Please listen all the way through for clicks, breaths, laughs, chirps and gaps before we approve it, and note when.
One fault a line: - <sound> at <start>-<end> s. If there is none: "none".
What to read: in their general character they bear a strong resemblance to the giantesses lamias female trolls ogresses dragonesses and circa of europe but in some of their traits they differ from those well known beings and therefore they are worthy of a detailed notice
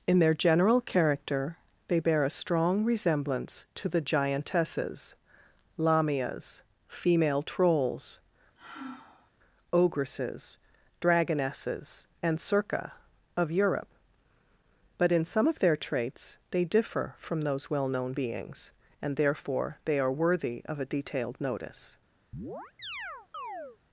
- sigh at 8.6-9.3 s
- chirp at 22.3-23.8 s